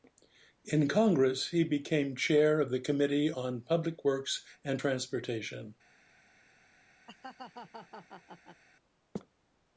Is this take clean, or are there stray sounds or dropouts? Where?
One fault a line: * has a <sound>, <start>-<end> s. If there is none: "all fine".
* has a laugh, 7.1-8.6 s